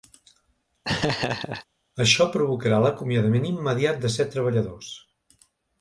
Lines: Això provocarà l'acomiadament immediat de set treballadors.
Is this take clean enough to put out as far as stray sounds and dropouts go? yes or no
no